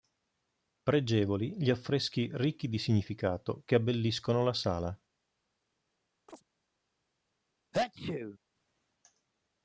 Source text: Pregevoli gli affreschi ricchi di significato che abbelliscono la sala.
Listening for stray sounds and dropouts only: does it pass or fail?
fail